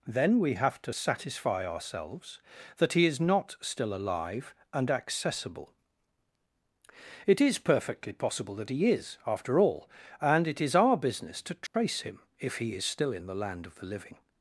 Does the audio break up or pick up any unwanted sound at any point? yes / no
yes